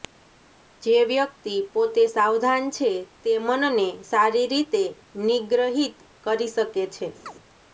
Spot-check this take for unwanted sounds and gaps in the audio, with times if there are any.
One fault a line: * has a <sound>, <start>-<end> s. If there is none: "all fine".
* has a chirp, 7.3-7.3 s